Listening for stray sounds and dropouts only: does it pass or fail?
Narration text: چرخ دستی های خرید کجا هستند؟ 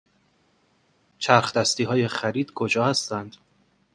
pass